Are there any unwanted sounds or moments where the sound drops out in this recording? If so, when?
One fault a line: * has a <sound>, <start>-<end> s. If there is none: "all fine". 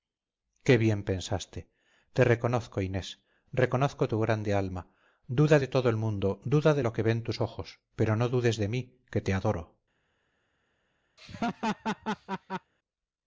* has a laugh, 11.2-12.7 s